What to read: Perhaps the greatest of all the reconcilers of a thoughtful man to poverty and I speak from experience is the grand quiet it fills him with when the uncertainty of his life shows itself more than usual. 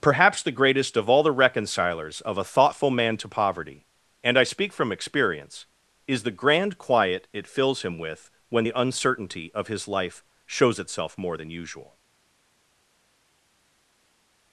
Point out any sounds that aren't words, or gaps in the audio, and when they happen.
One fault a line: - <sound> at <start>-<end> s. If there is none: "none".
none